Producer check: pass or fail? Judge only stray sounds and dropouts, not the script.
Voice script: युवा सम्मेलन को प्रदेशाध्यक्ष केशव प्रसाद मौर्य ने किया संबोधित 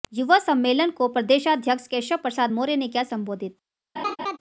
fail